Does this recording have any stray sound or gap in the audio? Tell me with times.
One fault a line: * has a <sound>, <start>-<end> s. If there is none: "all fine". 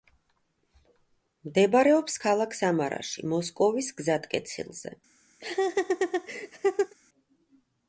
* has a laugh, 5.4-6.9 s